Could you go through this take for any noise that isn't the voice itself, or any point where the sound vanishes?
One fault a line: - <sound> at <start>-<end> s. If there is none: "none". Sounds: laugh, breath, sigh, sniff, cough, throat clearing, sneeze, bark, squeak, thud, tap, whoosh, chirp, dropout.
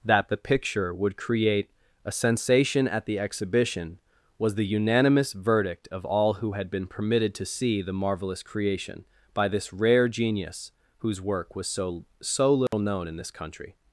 - dropout at 12.7-12.7 s